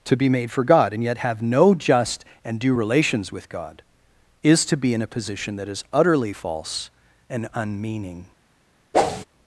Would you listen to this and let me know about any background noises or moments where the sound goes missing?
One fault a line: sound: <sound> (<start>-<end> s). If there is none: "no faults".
sound: whoosh (8.9-9.2 s)